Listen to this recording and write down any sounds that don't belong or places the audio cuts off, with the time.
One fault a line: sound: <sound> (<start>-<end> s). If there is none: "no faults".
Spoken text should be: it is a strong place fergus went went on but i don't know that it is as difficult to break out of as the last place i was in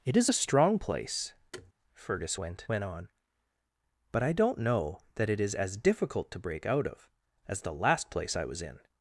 sound: thud (1.5-1.7 s)